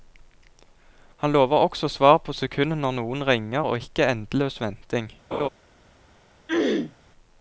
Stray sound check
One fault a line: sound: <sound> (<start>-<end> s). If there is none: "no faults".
sound: laugh (5.3-5.5 s)
sound: throat clearing (6.5-7.0 s)